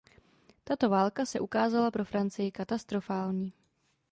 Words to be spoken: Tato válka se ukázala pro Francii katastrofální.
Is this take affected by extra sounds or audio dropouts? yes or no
no